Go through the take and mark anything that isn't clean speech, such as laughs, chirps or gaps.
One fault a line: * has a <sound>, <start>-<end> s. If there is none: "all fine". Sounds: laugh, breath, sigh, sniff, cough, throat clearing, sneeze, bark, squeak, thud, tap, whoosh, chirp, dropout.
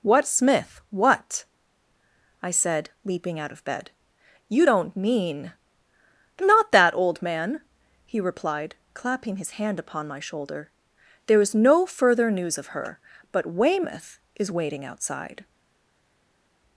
all fine